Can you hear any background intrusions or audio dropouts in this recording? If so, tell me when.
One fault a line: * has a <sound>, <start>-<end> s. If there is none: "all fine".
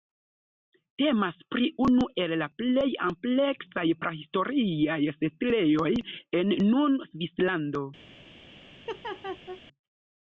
* has a laugh, 8.9-9.6 s